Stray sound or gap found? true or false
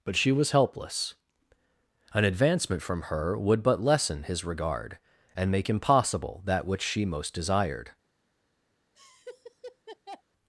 true